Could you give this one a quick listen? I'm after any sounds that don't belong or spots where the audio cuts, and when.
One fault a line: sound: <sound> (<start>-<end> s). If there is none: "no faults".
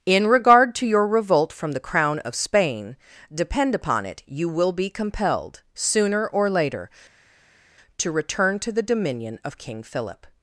no faults